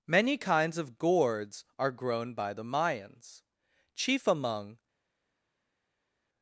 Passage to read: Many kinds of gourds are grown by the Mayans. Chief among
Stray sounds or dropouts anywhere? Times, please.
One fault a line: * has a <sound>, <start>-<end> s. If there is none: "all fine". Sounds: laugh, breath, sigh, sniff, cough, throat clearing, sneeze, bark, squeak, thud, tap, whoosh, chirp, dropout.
all fine